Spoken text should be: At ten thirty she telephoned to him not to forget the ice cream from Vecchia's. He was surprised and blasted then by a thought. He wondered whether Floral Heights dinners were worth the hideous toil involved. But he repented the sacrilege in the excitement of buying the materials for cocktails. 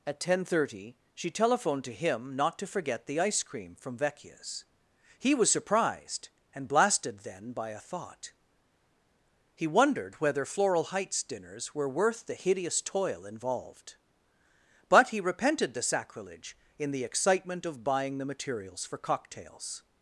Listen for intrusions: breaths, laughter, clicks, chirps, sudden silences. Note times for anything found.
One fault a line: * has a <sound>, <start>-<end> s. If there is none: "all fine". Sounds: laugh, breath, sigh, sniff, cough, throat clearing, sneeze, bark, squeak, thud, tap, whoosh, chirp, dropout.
all fine